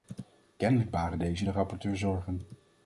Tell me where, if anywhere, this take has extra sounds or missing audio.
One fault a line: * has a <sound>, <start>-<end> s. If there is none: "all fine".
all fine